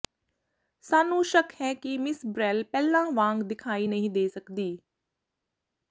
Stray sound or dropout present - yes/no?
no